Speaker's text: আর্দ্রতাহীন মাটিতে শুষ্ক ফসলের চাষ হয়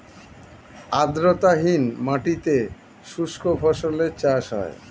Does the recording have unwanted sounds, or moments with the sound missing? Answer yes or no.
no